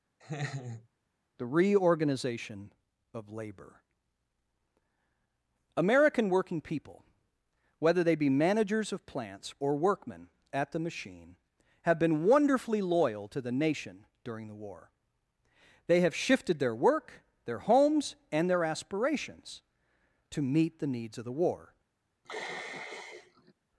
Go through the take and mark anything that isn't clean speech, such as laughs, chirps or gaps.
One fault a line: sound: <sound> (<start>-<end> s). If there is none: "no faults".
sound: laugh (0.2-0.9 s)
sound: sigh (22.2-23.5 s)